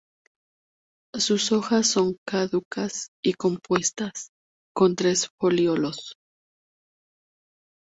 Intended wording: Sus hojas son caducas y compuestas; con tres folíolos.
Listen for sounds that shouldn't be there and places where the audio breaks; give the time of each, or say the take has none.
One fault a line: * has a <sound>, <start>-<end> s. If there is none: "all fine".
all fine